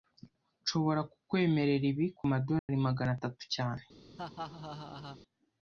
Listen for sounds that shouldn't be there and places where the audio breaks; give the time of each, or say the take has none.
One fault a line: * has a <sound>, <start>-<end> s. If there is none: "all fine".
* has a dropout, 2.6-2.7 s
* has a laugh, 4.2-5.2 s